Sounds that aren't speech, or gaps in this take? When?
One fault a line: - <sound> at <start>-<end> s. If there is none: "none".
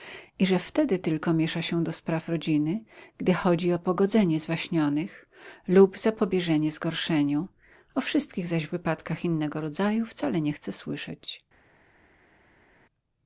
none